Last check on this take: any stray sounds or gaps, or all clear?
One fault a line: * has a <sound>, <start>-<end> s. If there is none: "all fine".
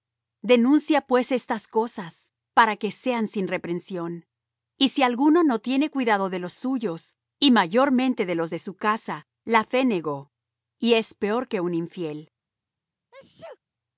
* has a sneeze, 13.1-13.6 s